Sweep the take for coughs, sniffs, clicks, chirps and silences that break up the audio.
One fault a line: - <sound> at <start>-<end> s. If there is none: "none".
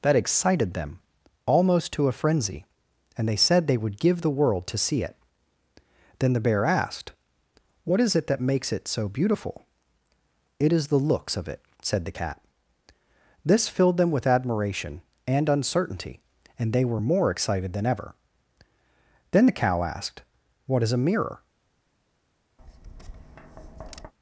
- tap at 22.6-24.1 s